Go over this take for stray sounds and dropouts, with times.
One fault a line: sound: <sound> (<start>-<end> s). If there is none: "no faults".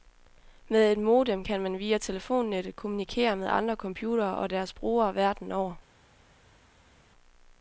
no faults